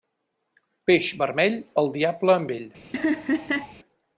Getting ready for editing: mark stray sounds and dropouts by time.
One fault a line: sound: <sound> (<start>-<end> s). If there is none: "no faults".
sound: laugh (2.9-3.7 s)